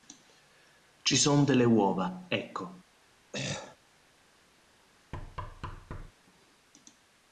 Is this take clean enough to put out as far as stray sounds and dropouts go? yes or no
no